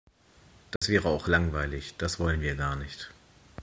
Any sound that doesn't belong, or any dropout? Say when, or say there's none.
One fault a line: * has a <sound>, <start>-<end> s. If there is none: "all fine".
* has a dropout, 0.8-0.8 s